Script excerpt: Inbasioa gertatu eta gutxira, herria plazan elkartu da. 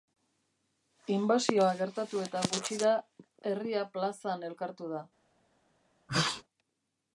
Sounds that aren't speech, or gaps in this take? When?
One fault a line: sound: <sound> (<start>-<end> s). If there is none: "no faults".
sound: sneeze (6.1-6.4 s)